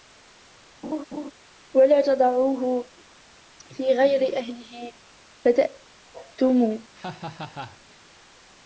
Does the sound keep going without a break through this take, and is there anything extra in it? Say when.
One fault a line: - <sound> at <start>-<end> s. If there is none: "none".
- laugh at 0.8-1.3 s
- laugh at 6.9-7.8 s